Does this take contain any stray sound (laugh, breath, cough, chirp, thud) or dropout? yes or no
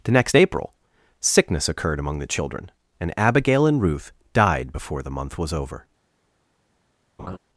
yes